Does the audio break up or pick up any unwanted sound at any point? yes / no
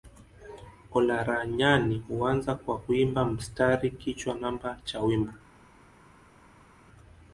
no